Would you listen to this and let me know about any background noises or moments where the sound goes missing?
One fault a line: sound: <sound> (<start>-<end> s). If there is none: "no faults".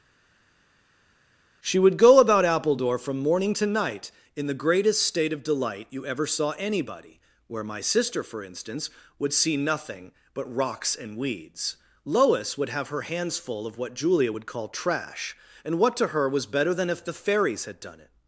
no faults